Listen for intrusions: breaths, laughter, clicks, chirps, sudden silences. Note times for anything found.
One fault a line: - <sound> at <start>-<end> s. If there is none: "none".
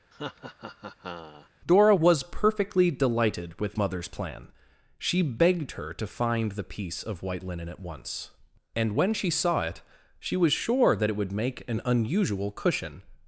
- laugh at 0.1-1.5 s